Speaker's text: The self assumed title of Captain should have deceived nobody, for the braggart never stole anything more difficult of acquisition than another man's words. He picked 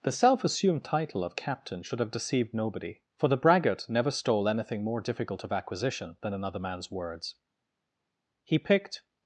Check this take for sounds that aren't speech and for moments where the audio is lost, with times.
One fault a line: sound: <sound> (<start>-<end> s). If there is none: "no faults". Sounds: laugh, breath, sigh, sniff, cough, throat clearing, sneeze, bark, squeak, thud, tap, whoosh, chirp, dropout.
no faults